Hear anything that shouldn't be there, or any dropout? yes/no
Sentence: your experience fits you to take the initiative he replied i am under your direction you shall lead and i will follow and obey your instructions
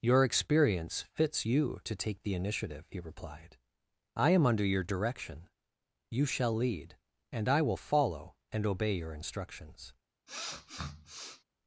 yes